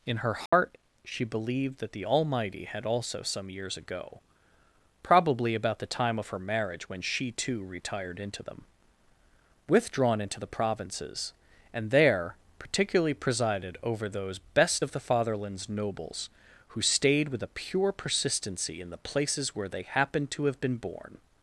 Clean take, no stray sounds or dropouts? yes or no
no